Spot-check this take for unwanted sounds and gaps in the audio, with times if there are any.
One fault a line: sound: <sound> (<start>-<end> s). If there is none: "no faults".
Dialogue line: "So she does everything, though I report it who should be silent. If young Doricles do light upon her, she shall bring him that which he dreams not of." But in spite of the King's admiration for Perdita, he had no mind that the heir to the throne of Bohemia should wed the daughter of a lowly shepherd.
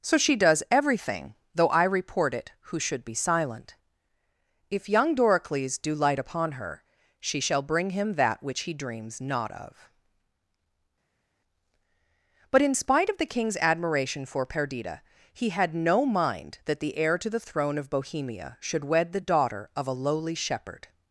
no faults